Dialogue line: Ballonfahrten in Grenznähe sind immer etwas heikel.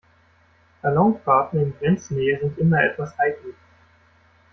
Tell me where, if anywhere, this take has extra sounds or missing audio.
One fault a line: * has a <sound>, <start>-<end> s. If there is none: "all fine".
all fine